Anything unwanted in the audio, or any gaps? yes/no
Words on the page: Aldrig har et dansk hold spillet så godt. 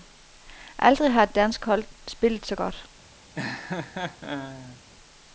yes